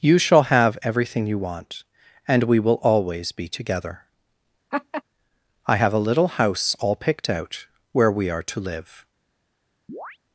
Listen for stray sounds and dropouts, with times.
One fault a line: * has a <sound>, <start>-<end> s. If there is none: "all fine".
* has a laugh, 4.7-5.0 s
* has a chirp, 9.9-10.2 s